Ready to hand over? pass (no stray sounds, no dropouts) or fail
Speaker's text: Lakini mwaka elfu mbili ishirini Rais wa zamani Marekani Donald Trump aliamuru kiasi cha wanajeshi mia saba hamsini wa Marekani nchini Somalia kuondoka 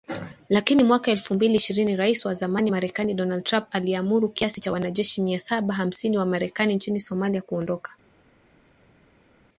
pass